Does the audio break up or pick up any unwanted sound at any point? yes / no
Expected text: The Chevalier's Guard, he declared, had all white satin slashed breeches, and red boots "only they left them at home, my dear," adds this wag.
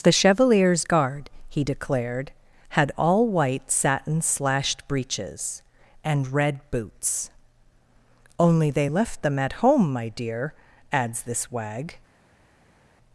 no